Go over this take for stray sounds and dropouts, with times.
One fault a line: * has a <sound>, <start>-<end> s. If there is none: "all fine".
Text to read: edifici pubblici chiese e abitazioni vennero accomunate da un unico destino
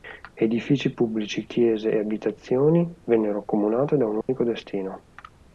* has a dropout, 4.2-4.3 s